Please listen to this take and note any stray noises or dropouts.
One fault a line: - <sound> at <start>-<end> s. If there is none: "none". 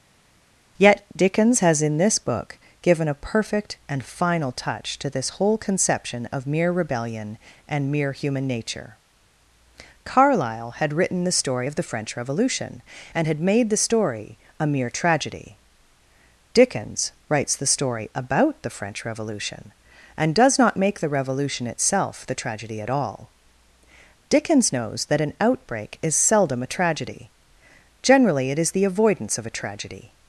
none